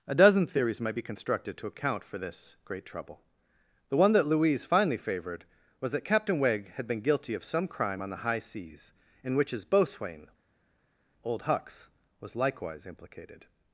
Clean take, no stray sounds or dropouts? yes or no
yes